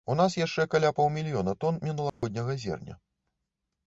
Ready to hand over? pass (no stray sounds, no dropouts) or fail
fail